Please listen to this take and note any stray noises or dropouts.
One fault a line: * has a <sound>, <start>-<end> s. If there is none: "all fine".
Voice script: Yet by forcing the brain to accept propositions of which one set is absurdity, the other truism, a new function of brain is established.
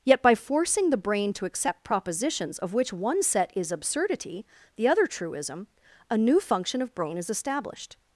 all fine